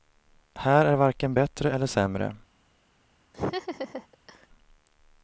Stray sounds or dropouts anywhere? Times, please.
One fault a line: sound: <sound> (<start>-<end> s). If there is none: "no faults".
sound: laugh (3.3-4.5 s)